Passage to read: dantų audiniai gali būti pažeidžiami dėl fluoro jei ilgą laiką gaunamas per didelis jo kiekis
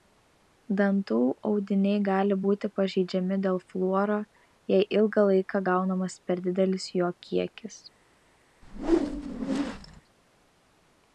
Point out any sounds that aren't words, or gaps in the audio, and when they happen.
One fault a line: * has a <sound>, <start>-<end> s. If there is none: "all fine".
* has a whoosh, 8.6-10.0 s